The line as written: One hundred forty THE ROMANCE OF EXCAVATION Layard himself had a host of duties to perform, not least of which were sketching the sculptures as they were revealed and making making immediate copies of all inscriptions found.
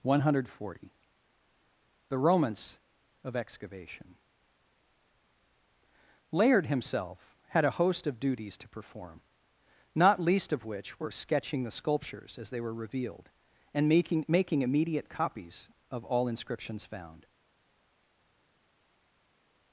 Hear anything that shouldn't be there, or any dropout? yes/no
no